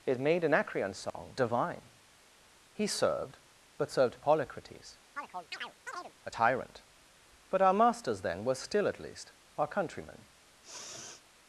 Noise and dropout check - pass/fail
fail